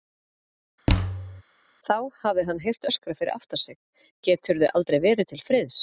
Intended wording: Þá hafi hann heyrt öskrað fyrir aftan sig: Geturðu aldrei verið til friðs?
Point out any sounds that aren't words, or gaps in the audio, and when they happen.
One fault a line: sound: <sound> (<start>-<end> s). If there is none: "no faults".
sound: thud (0.9-1.4 s)